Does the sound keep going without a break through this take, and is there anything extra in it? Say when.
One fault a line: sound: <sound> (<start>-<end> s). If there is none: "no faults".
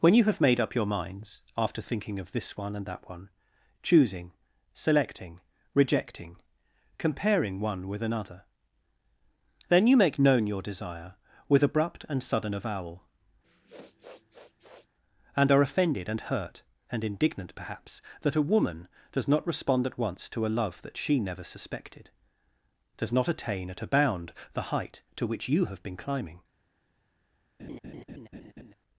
sound: sniff (13.4-14.9 s)
sound: laugh (27.6-28.7 s)